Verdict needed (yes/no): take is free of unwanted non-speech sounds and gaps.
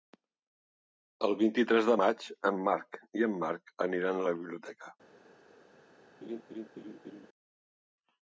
no